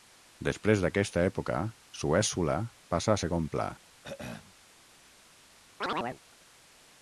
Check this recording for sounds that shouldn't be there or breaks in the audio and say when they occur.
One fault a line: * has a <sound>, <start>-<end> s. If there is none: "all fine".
* has a throat clearing, 4.0-4.6 s
* has a chirp, 5.8-6.2 s